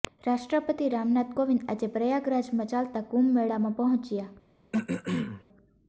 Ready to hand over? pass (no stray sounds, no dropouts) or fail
fail